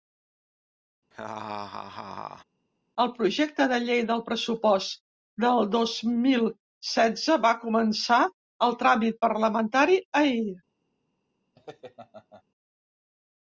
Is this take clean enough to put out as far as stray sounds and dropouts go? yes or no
no